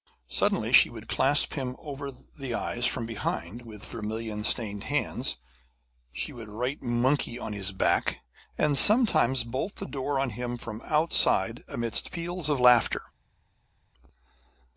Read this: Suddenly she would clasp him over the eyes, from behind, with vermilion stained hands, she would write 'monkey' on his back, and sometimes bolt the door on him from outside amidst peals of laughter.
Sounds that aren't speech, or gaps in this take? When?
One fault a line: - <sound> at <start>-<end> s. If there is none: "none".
none